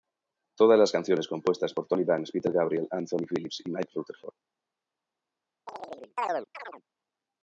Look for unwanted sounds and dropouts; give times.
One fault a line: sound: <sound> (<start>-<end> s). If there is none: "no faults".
sound: chirp (5.7-6.8 s)